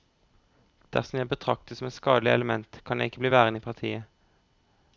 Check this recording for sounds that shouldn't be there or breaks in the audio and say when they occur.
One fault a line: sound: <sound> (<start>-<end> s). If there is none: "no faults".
no faults